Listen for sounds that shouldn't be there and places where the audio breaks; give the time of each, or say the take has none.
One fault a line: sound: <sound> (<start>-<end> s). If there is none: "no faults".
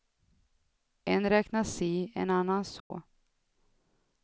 sound: dropout (2.8-2.9 s)